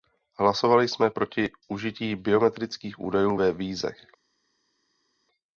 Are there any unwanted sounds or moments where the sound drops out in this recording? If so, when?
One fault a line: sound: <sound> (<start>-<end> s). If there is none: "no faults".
no faults